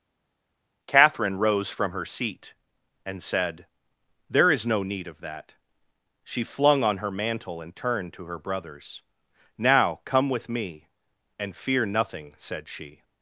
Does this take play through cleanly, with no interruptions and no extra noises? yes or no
yes